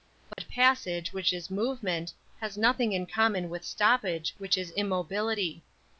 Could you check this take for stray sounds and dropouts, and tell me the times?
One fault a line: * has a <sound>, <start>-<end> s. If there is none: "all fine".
* has a dropout, 0.3-0.4 s